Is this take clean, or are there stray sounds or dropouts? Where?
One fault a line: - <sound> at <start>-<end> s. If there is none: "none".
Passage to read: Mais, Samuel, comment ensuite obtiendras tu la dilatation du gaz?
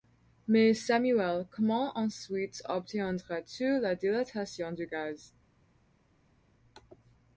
none